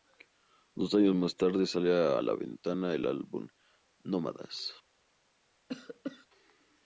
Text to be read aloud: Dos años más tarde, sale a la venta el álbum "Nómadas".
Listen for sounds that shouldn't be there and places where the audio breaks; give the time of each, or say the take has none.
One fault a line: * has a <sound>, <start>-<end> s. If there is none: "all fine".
* has a cough, 5.7-6.3 s